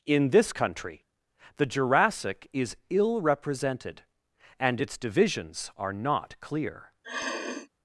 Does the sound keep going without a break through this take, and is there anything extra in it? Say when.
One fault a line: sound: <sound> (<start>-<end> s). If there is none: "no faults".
sound: sniff (7.0-7.7 s)